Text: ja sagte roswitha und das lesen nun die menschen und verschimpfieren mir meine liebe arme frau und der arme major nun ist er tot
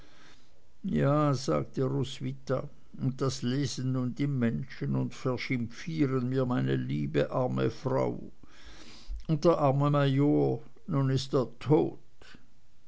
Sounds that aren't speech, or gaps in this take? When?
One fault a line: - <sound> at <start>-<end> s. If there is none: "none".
none